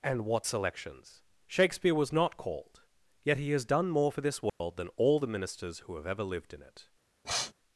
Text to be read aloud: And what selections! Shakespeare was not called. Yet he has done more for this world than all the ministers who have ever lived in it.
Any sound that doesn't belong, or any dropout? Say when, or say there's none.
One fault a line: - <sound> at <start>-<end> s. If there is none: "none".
- dropout at 4.5-4.6 s
- sniff at 7.2-7.5 s